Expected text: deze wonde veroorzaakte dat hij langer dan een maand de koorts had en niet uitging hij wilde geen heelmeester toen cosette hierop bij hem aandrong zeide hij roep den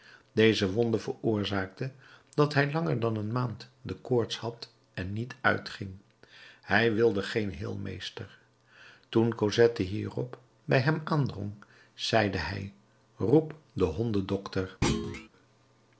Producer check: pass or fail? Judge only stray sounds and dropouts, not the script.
fail